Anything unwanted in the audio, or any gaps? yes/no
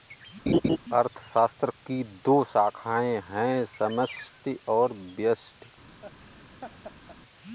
yes